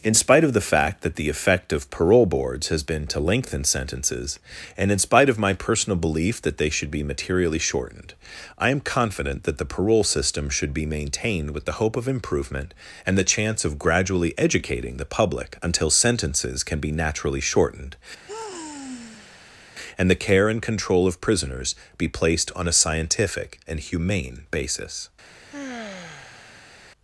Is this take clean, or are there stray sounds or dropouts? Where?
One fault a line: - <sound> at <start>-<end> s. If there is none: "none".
- sigh at 18.3-19.7 s
- sigh at 25.5-26.8 s